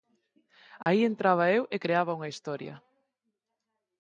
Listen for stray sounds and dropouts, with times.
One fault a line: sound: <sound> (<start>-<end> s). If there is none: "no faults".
sound: dropout (0.8-0.9 s)